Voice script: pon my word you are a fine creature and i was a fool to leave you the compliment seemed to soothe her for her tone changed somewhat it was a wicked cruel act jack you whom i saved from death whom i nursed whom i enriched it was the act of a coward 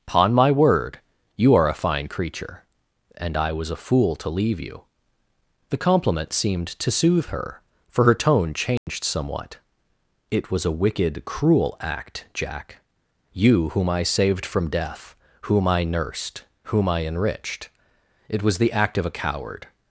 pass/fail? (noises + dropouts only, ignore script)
fail